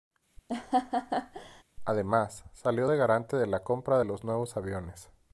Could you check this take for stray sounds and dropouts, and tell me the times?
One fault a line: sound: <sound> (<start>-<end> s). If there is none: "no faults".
sound: laugh (0.5-1.6 s)